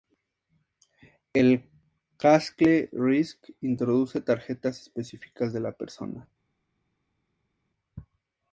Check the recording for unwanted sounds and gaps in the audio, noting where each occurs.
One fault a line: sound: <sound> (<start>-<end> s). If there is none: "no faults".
no faults